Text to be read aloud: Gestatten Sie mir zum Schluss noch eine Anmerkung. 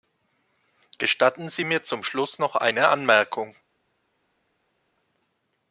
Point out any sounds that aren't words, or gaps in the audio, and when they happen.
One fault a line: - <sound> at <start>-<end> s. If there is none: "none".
none